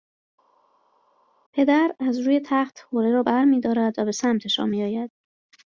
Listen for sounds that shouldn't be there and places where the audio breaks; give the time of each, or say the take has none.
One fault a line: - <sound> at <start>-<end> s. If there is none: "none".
none